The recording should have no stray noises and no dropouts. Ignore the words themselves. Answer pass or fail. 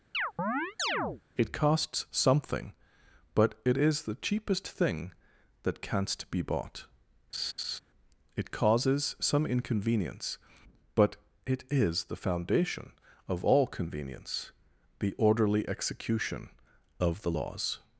fail